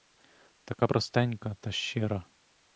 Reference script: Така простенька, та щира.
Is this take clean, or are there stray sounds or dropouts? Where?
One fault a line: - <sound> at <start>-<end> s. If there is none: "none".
none